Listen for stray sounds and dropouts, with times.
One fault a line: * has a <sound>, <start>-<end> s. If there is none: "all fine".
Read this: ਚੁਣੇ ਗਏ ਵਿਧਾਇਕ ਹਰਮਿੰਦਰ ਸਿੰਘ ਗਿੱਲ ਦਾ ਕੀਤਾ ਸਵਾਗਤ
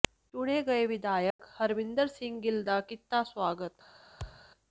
* has a dropout, 1.3-1.4 s
* has a thud, 4.2-4.5 s